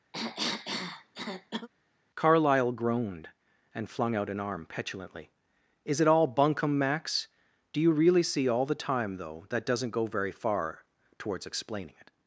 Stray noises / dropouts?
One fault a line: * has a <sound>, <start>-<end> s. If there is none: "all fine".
* has a cough, 0.1-1.7 s